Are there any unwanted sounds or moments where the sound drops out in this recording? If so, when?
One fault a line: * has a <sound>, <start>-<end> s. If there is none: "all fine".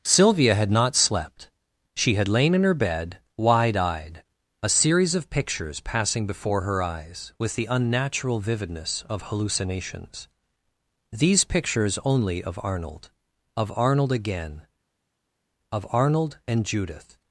all fine